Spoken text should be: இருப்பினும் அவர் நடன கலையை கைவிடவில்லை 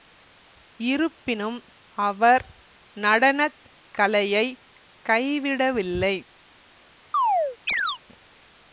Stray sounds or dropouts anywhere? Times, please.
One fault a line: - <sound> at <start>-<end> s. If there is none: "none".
- chirp at 7.1-8.0 s